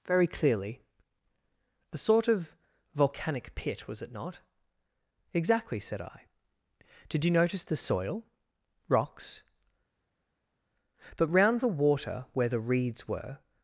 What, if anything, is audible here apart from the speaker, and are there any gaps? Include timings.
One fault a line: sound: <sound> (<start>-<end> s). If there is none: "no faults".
no faults